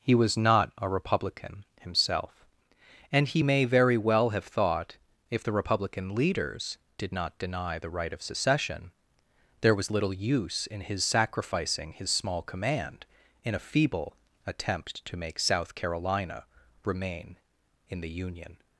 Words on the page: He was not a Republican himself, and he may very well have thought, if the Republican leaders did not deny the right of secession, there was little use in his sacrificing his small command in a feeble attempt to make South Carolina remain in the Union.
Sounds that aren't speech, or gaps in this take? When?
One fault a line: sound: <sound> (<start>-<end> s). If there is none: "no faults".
no faults